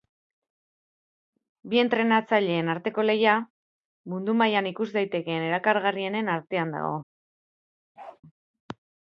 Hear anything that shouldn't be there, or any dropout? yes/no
yes